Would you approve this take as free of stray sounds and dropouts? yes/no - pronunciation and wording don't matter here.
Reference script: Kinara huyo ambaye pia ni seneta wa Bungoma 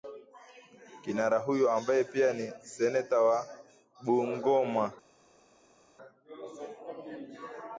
yes